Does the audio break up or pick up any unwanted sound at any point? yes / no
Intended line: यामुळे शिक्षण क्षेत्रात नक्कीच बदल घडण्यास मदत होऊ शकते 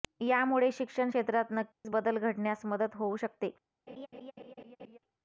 yes